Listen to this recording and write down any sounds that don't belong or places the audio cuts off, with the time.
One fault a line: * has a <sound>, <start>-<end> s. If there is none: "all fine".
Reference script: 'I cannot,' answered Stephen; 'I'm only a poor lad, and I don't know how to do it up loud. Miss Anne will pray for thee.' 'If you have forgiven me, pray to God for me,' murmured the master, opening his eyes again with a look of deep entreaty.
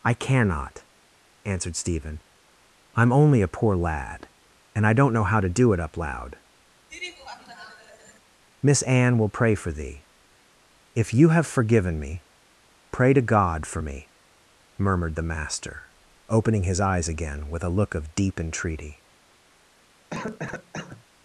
* has a laugh, 6.9-8.2 s
* has a cough, 20.1-21.0 s